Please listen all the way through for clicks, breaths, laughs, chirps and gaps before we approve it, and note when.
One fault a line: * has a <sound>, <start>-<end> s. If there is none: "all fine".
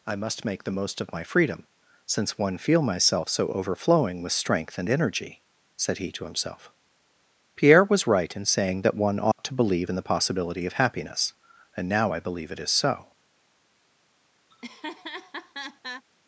* has a dropout, 9.3-9.4 s
* has a laugh, 14.5-16.0 s